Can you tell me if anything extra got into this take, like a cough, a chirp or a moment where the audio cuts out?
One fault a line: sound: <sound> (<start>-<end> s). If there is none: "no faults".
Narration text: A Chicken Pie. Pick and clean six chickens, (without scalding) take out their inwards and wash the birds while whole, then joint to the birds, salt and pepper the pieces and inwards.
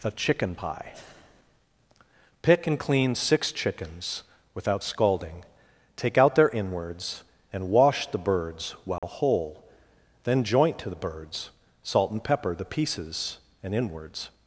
sound: dropout (9.0-9.0 s)